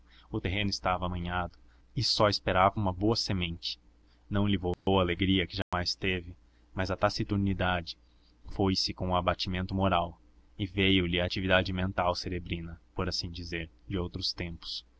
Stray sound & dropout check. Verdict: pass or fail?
fail